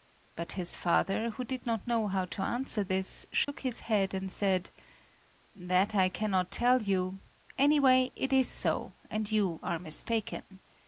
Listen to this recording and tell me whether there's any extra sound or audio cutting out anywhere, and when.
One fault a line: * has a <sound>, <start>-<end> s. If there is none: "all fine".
* has a dropout, 3.4-3.5 s